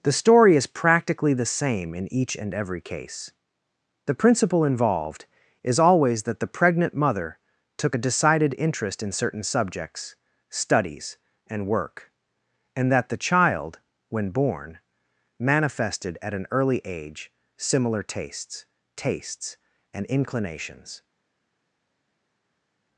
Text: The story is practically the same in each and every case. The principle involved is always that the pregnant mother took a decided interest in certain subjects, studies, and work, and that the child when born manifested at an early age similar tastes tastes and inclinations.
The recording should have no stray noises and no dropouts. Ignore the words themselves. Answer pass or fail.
pass